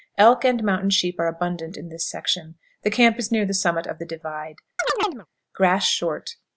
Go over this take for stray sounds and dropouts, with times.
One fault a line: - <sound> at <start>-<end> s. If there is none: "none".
- chirp at 4.8-5.3 s